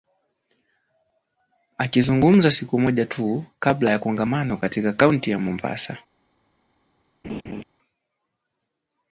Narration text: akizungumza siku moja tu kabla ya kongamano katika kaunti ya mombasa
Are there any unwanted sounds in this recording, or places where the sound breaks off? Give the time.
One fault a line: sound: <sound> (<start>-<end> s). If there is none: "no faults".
sound: laugh (7.2-7.6 s)